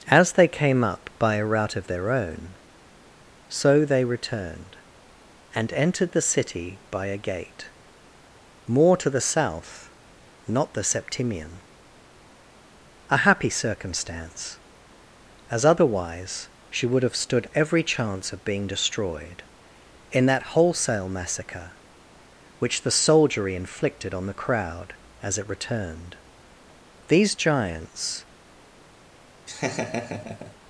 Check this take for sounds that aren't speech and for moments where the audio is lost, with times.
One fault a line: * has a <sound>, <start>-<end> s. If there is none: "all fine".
* has a laugh, 29.5-30.6 s